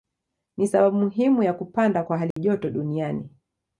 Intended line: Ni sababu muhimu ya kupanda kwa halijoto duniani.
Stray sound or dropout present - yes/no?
yes